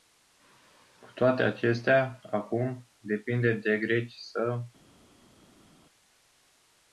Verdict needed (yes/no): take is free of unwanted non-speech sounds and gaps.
yes